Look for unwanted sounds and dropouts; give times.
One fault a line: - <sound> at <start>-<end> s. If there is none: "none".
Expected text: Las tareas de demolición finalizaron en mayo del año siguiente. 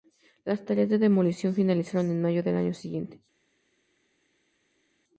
none